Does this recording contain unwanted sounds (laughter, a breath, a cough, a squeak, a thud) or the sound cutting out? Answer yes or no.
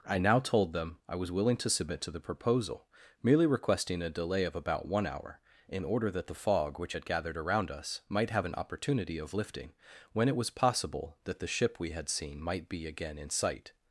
no